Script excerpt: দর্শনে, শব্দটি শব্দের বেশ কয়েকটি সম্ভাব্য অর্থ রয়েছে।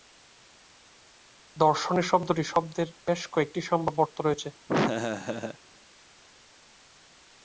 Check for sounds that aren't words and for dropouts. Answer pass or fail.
fail